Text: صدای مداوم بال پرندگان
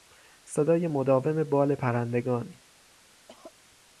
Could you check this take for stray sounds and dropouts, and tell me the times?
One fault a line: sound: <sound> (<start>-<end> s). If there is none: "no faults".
sound: cough (3.3-3.5 s)